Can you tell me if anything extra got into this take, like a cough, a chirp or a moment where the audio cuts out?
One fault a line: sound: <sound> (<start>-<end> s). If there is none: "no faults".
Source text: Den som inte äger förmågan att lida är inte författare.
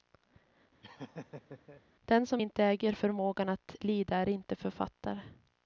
sound: laugh (0.8-1.8 s)